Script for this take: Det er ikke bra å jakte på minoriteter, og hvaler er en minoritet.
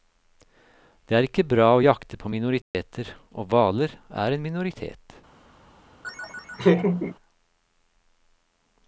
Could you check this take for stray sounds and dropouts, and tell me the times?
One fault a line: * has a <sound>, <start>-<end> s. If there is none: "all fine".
* has a dropout, 2.6-2.7 s
* has a laugh, 6.0-7.2 s